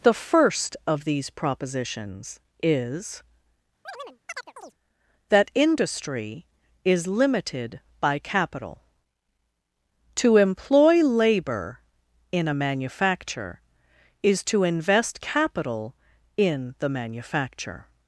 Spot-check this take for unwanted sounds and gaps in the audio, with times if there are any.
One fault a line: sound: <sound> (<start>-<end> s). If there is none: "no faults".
sound: chirp (3.8-4.7 s)